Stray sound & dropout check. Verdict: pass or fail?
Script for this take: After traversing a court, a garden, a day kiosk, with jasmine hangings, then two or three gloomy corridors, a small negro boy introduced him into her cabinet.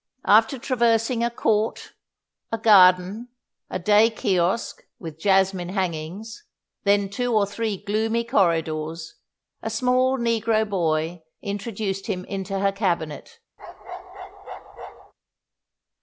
fail